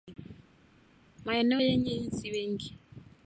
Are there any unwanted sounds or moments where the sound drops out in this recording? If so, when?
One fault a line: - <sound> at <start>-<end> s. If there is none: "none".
none